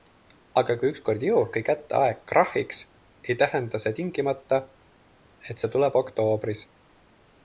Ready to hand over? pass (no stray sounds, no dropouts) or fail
pass